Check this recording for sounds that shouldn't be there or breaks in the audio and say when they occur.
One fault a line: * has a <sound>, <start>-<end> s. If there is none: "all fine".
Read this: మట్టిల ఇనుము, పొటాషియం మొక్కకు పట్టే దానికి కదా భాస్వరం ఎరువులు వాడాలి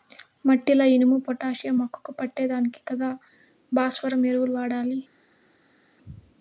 all fine